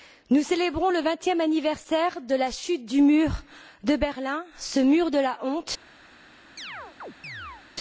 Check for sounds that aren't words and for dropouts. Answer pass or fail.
fail